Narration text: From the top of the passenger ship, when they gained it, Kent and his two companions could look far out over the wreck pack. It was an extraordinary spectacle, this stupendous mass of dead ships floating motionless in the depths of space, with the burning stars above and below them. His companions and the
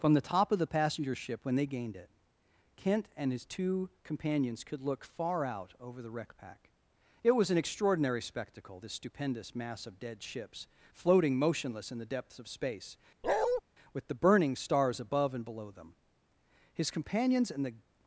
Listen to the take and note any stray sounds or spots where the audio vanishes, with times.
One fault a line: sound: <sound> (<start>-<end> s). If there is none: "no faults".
sound: bark (13.2-13.6 s)